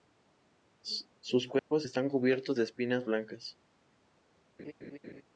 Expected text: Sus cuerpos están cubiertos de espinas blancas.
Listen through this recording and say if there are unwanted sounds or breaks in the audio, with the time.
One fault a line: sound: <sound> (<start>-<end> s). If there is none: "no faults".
sound: dropout (1.6-1.7 s)
sound: laugh (4.6-5.2 s)